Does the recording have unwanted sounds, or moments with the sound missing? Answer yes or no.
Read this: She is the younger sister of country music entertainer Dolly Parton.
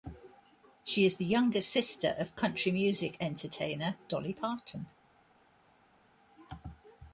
no